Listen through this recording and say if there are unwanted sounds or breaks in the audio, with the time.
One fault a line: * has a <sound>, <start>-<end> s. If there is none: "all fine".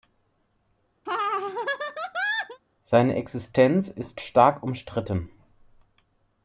* has a laugh, 1.1-2.6 s